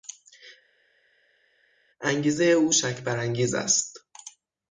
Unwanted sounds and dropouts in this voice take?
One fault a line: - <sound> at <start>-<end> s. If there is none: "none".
none